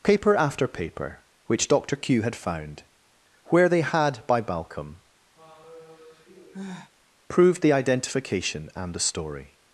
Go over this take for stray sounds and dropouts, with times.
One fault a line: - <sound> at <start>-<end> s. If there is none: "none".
- sigh at 5.4-6.9 s